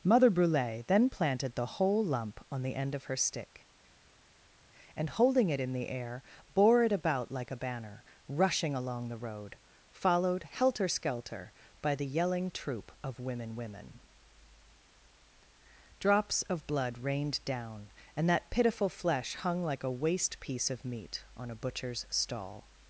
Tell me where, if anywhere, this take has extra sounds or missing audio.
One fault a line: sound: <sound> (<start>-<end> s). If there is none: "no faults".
no faults